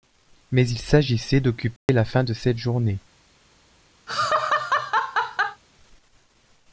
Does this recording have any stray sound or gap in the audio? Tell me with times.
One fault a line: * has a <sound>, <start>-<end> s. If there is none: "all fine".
* has a dropout, 1.8-1.9 s
* has a laugh, 4.1-5.6 s